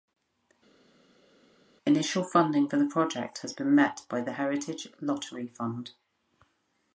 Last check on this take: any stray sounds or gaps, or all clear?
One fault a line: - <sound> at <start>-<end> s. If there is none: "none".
none